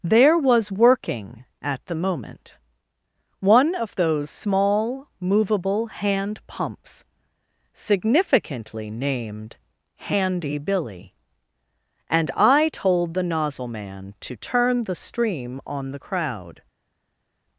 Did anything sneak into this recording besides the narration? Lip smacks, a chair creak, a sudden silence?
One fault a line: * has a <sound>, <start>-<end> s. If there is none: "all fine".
all fine